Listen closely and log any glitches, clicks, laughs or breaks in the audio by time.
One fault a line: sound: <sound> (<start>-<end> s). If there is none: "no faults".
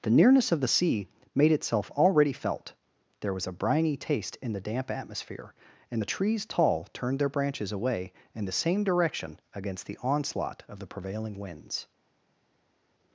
no faults